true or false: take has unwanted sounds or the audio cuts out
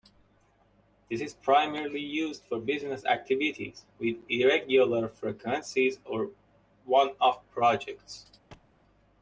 true